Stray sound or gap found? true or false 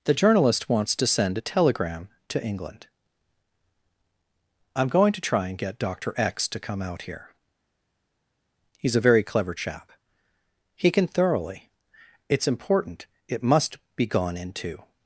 false